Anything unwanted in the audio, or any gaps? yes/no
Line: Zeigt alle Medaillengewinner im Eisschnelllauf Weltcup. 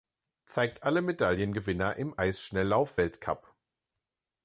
no